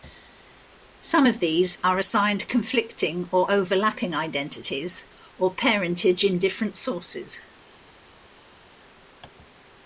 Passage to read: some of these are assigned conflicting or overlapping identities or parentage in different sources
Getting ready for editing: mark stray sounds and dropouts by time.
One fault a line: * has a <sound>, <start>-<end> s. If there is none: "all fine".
all fine